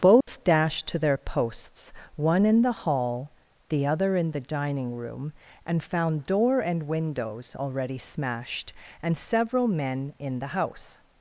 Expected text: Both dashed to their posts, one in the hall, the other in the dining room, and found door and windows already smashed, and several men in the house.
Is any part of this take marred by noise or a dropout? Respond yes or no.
yes